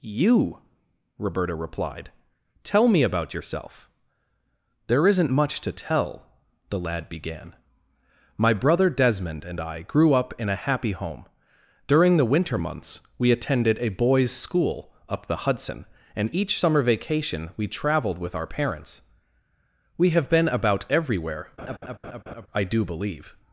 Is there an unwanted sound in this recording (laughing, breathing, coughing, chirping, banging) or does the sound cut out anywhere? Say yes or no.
yes